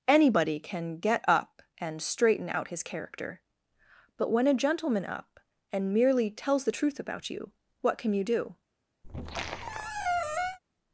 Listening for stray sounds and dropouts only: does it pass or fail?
fail